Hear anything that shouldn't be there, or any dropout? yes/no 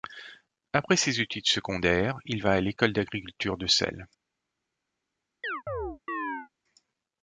yes